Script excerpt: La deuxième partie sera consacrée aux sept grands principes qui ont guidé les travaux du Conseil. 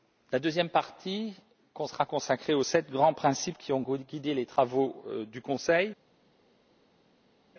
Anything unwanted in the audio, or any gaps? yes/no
no